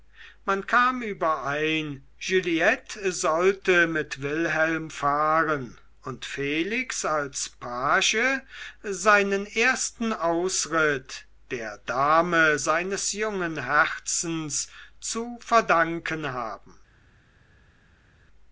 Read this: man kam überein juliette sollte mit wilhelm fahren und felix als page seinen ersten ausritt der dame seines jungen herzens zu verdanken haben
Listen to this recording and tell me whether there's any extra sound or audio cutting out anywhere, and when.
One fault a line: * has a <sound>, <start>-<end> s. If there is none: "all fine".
all fine